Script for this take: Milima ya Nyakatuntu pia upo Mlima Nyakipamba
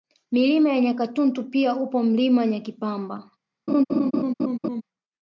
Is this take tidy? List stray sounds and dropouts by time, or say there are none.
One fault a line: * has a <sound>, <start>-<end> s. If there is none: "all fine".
* has a laugh, 3.7-4.8 s